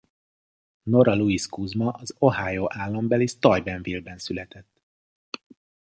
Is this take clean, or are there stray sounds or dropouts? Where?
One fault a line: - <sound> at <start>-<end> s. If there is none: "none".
none